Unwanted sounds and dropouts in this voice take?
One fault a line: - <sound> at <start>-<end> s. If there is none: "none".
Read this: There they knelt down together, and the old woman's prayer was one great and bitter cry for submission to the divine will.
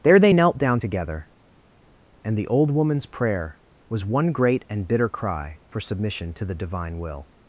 none